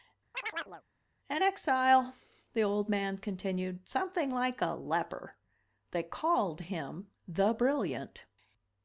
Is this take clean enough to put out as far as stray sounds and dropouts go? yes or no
no